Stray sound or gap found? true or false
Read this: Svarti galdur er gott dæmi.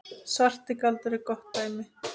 false